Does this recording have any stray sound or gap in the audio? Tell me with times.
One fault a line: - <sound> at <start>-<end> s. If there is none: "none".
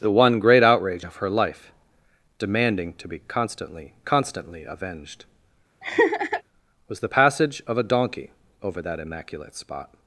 - laugh at 5.8-6.4 s